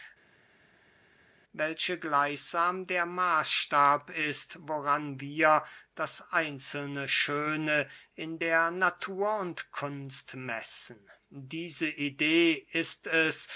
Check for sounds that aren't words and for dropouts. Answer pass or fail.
pass